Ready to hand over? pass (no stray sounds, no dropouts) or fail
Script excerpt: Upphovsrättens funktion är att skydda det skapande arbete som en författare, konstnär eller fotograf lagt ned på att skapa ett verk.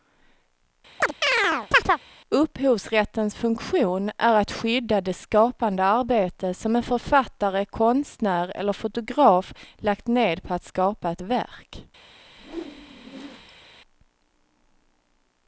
fail